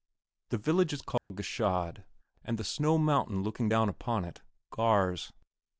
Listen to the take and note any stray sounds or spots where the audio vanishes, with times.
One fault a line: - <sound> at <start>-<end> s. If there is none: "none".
- dropout at 1.2-1.3 s